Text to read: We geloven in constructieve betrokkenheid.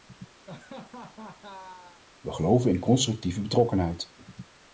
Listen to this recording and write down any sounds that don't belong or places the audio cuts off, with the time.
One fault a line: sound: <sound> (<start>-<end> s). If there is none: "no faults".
sound: laugh (0.5-2.0 s)